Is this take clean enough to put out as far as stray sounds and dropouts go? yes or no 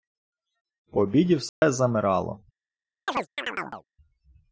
no